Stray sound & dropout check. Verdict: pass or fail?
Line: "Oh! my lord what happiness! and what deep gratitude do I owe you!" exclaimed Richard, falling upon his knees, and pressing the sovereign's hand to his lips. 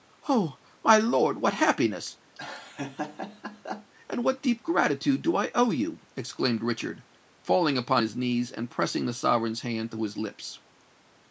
fail